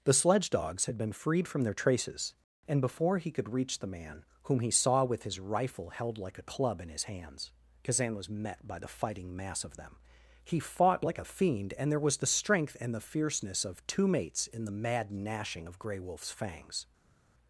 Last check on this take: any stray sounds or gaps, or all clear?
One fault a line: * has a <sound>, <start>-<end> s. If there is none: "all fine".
all fine